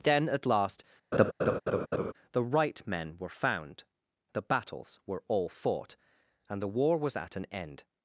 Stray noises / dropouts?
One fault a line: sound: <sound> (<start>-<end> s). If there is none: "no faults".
sound: laugh (1.1-2.1 s)